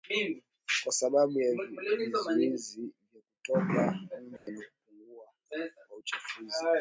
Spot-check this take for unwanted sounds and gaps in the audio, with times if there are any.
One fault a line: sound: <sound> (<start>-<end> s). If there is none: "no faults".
sound: dropout (4.4-4.5 s)